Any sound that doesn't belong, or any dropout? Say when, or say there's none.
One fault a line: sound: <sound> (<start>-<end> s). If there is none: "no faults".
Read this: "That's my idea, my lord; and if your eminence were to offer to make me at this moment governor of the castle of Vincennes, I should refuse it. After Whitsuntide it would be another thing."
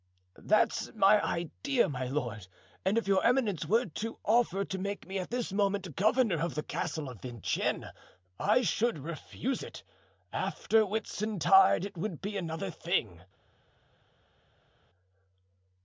no faults